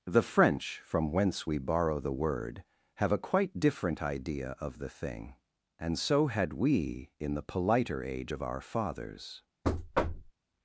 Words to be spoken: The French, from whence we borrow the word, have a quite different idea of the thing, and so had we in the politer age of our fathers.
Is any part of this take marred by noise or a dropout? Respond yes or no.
yes